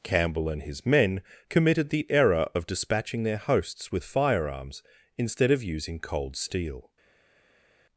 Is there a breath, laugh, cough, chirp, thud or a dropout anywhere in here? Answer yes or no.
no